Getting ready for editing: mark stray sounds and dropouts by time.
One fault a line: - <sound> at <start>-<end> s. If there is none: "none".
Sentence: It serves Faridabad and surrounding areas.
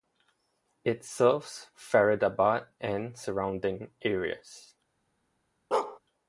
- bark at 5.7-6.0 s